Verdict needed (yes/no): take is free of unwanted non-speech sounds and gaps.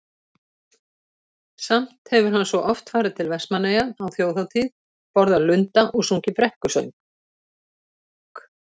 yes